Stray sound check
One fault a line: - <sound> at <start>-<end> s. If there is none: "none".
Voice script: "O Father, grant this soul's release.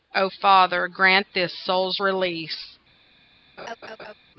- laugh at 3.6-4.1 s